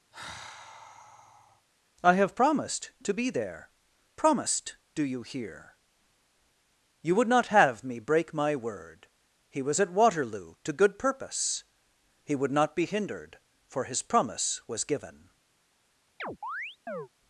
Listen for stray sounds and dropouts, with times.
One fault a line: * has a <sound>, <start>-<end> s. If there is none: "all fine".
* has a sigh, 0.1-1.7 s
* has a chirp, 16.2-17.1 s